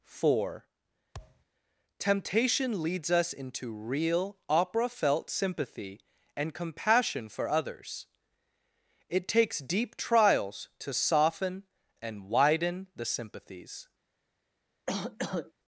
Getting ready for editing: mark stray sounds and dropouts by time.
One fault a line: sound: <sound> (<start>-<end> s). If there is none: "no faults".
sound: thud (1.1-1.5 s)
sound: cough (14.9-15.5 s)